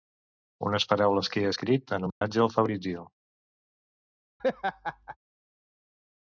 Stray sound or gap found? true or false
true